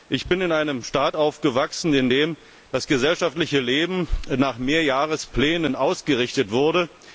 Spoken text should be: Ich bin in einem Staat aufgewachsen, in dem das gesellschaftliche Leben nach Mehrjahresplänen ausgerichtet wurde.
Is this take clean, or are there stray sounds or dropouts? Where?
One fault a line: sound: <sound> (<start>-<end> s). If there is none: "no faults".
no faults